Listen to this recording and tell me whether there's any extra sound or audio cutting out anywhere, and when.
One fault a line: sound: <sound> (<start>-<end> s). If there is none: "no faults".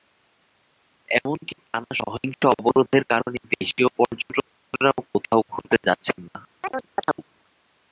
sound: chirp (6.6-7.2 s)